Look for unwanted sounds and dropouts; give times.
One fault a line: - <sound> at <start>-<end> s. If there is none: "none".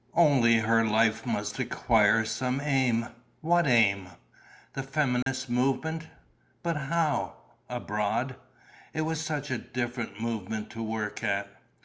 - dropout at 5.2-5.3 s